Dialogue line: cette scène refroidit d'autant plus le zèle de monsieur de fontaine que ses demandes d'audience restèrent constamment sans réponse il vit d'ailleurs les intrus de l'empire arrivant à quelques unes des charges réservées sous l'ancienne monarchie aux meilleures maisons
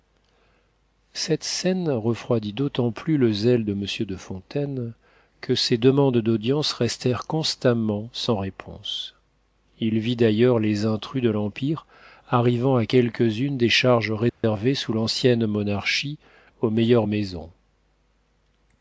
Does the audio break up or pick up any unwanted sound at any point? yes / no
yes